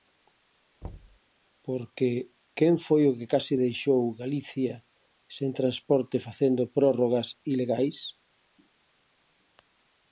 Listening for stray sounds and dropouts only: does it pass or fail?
fail